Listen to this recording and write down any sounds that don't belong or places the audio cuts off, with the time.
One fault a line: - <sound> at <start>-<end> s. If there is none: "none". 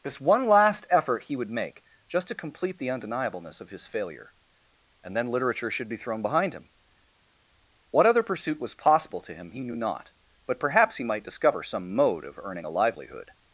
none